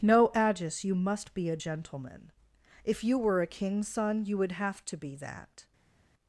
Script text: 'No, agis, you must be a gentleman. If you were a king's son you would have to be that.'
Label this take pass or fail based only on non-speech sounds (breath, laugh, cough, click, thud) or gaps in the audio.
pass